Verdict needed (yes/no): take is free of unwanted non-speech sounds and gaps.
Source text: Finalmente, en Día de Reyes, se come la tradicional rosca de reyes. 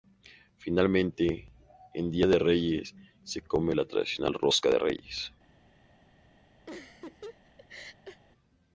no